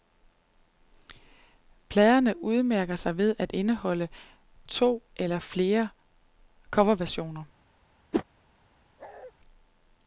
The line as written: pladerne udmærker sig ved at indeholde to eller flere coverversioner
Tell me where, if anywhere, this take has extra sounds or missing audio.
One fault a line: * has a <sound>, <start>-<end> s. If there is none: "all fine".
* has a whoosh, 8.1-8.2 s
* has a bark, 9.0-9.3 s